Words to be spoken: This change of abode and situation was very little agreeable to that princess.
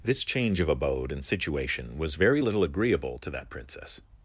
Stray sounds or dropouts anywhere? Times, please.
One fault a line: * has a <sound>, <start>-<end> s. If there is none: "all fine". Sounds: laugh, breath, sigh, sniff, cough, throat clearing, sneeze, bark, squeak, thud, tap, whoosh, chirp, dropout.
all fine